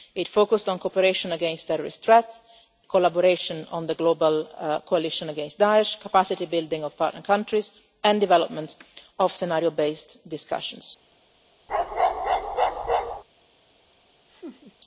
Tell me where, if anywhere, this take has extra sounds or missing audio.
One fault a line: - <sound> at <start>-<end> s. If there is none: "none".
- bark at 11.7-13.2 s
- laugh at 14.3-14.7 s